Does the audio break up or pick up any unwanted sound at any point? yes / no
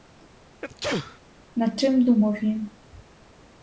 yes